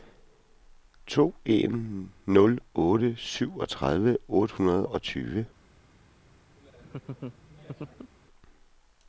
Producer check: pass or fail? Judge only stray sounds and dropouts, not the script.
fail